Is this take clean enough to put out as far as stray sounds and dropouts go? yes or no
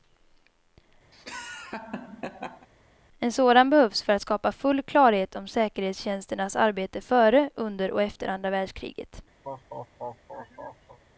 no